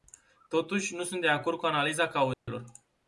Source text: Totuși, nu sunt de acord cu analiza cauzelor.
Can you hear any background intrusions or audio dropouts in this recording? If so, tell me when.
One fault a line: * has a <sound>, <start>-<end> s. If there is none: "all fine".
* has a dropout, 2.3-2.5 s